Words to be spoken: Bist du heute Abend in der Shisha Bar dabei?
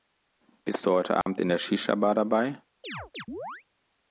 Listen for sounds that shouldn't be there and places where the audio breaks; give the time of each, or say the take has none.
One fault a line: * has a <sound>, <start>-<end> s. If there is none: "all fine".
* has a dropout, 1.2-1.3 s
* has a chirp, 2.8-3.6 s